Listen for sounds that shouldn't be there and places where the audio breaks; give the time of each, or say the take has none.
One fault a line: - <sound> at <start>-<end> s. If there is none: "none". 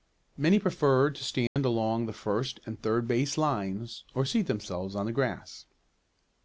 - dropout at 1.5-1.6 s